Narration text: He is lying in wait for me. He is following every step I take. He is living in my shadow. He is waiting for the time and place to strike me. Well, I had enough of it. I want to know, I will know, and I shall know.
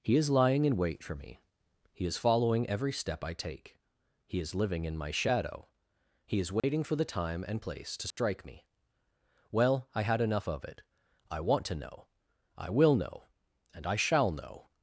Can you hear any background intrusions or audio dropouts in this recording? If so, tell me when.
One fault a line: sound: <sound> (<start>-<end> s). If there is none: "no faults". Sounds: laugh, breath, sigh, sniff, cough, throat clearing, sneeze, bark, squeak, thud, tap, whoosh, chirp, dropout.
sound: dropout (6.6-6.6 s)
sound: dropout (8.1-8.2 s)